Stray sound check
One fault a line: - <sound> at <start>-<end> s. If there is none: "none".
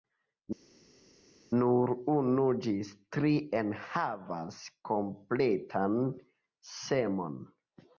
none